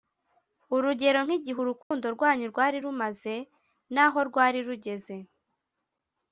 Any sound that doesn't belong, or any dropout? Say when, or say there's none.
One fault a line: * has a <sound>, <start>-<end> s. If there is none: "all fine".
* has a dropout, 1.8-1.9 s